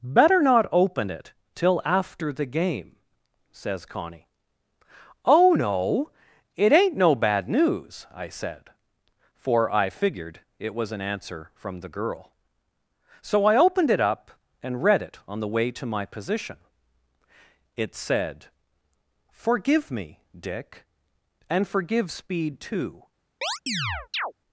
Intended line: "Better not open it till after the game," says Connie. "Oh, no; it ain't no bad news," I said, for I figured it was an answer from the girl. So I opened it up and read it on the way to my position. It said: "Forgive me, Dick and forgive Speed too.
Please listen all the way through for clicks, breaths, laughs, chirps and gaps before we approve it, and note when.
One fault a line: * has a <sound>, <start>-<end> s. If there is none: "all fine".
* has a chirp, 23.4-24.3 s